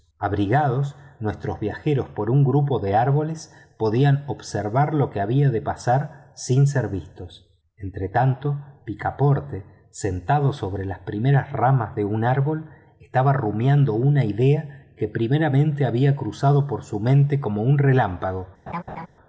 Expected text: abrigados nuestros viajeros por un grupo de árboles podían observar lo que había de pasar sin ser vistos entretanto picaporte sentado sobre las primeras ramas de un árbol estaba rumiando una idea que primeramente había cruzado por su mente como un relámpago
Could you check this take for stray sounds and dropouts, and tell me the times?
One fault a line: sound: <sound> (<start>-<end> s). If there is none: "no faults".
sound: laugh (18.7-19.1 s)